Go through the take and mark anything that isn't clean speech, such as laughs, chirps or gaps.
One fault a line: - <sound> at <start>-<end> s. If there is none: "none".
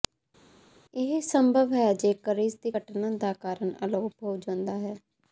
none